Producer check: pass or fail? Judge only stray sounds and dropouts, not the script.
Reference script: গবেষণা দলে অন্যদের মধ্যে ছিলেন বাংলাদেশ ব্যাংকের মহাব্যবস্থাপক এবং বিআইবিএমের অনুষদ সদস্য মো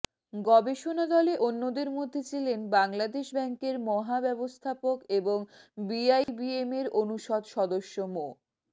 fail